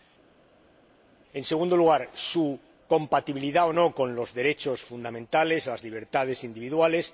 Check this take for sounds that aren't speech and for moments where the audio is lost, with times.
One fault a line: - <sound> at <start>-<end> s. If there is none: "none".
none